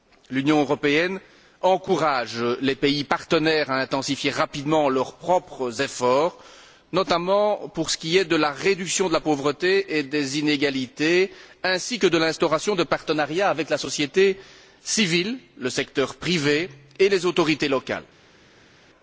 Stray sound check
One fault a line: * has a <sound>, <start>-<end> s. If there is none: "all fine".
all fine